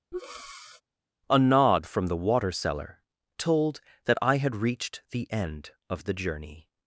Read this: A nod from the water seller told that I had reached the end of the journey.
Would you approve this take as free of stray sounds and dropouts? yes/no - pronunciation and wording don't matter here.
no